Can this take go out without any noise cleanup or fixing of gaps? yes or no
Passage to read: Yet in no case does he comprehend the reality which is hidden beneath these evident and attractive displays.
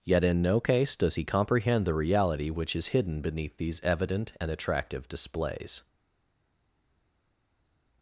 yes